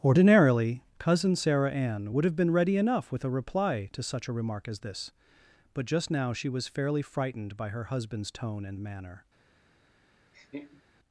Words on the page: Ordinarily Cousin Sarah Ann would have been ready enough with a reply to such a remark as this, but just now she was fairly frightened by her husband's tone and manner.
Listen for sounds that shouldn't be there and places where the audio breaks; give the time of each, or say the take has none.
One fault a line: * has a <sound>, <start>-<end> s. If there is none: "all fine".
* has a laugh, 10.3-10.8 s